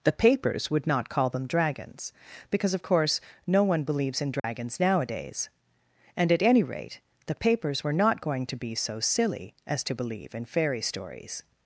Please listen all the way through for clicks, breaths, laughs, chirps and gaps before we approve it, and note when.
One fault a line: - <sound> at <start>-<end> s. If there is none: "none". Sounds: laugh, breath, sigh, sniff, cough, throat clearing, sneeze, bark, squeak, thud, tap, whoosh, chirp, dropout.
- dropout at 4.4-4.4 s